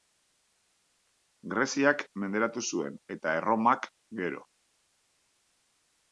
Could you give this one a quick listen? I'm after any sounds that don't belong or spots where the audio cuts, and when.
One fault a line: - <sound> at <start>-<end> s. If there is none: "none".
none